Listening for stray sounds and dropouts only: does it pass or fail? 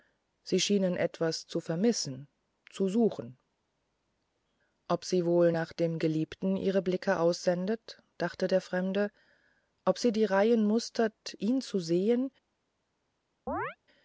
fail